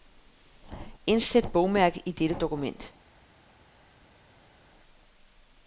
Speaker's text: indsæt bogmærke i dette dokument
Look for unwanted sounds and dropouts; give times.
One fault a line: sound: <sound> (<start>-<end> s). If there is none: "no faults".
no faults